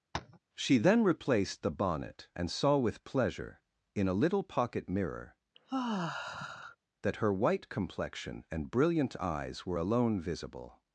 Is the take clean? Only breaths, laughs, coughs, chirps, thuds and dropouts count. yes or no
no